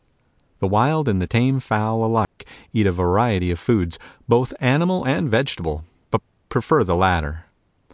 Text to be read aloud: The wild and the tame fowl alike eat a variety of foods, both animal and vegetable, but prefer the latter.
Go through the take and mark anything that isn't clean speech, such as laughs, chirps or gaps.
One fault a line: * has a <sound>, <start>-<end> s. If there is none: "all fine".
* has a dropout, 2.2-2.4 s